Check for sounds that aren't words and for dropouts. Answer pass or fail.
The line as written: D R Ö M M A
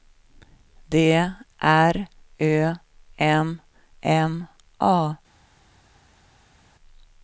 pass